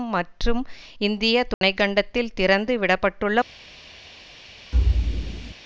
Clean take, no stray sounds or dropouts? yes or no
no